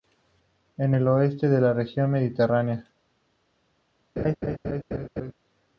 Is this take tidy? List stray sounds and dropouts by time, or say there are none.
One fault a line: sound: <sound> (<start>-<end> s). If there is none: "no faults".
sound: laugh (4.2-5.3 s)